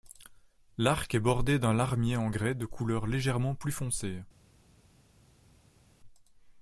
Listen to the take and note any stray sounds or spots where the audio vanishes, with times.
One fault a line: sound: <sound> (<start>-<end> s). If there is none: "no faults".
no faults